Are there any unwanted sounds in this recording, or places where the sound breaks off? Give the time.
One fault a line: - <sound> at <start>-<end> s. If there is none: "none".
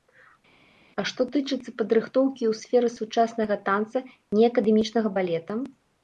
none